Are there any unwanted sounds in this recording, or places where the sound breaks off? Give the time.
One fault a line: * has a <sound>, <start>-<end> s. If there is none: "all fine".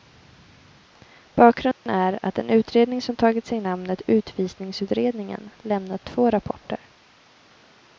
* has a dropout, 1.7-1.9 s